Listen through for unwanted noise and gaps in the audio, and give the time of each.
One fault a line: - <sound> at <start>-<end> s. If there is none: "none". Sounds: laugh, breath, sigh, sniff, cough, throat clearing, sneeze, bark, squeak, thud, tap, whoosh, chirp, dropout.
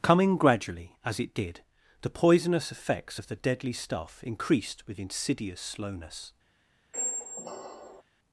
- squeak at 6.9-8.0 s